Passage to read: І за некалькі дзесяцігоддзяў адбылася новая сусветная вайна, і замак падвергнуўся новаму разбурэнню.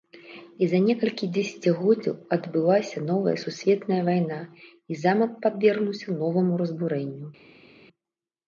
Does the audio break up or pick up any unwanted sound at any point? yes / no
no